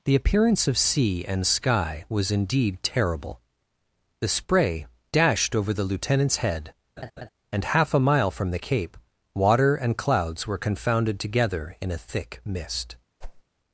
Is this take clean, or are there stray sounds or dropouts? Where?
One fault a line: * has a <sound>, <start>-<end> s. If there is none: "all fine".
* has a laugh, 7.0-7.3 s
* has a whoosh, 13.2-13.4 s